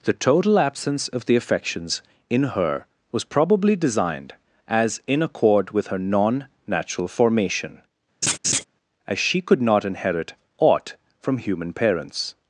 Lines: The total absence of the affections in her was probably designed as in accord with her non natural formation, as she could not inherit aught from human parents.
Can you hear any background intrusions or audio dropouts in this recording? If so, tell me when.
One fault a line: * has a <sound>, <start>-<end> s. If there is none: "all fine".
* has a laugh, 8.2-8.6 s